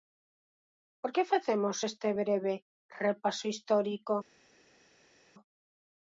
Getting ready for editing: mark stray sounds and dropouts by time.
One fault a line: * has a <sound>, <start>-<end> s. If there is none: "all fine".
all fine